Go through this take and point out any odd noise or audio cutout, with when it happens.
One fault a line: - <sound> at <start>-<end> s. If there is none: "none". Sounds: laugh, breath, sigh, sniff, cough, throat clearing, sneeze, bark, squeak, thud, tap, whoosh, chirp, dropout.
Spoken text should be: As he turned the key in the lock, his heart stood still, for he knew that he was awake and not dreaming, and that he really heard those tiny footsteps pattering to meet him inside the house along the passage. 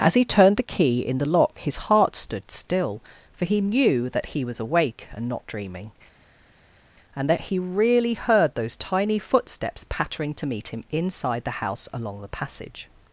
none